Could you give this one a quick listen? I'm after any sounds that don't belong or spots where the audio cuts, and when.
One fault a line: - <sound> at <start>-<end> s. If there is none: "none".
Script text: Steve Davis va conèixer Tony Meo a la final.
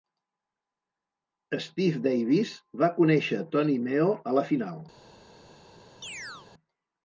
- chirp at 6.0-6.5 s